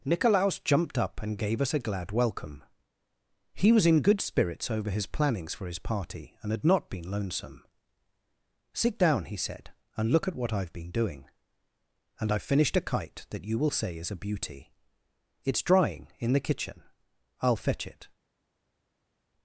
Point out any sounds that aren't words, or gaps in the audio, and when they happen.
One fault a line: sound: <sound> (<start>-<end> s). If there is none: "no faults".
no faults